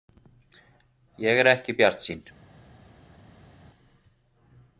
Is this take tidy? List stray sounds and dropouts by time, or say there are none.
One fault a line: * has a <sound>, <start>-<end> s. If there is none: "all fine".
all fine